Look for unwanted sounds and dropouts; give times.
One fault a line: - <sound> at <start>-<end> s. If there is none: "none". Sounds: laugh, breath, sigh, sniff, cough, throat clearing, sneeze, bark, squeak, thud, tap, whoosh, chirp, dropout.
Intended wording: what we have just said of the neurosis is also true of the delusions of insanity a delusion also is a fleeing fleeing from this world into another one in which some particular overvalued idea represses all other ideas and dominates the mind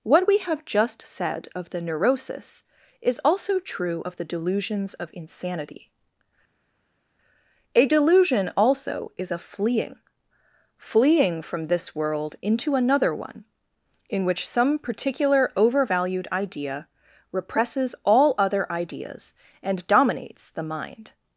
none